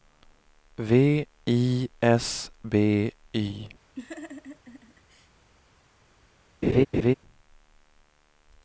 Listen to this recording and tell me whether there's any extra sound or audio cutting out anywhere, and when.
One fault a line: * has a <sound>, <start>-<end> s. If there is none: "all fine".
* has a laugh, 4.0-5.3 s
* has a laugh, 6.6-7.1 s